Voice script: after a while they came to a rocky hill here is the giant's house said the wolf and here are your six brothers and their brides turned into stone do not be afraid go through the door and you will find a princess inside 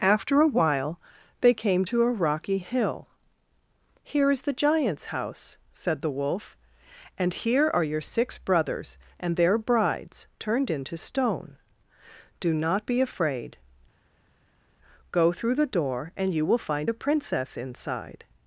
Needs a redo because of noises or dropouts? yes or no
no